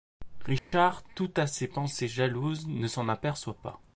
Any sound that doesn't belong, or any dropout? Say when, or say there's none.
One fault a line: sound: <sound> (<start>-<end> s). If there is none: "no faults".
sound: dropout (0.6-0.7 s)